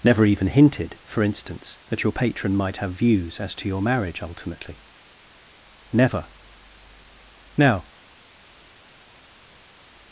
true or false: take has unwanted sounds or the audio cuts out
false